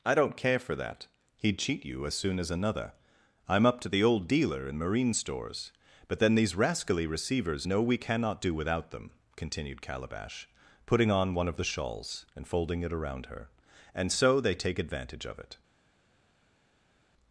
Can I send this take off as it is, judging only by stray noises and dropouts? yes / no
yes